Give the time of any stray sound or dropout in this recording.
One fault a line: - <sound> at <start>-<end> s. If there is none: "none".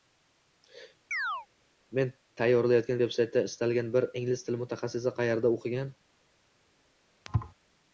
- chirp at 1.1-1.5 s
- thud at 7.2-7.5 s